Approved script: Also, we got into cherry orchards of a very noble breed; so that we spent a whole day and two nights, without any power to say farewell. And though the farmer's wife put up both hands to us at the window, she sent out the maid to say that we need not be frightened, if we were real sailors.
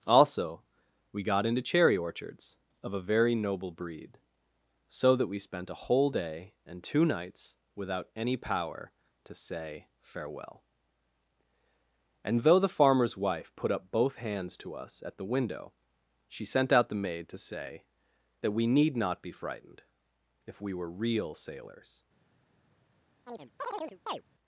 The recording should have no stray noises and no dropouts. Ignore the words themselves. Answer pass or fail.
fail